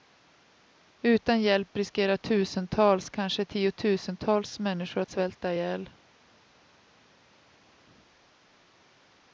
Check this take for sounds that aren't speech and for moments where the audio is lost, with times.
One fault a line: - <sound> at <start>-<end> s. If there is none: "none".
none